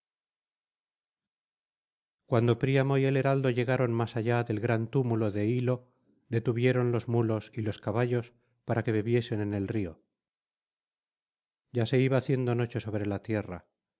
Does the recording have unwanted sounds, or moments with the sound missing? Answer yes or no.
no